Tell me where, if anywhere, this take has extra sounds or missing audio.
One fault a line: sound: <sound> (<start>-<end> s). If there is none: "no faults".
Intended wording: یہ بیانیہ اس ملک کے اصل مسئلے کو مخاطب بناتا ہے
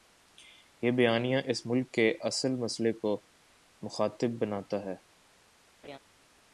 sound: laugh (5.8-6.0 s)